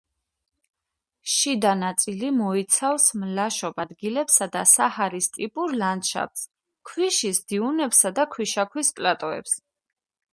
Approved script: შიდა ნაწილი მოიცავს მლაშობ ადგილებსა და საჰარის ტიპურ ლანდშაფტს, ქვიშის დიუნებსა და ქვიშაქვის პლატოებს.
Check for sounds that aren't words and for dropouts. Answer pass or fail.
pass